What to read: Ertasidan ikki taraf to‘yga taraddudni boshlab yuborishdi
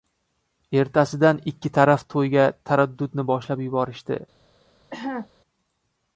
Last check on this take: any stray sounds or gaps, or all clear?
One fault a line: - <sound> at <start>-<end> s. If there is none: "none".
- cough at 4.9-5.3 s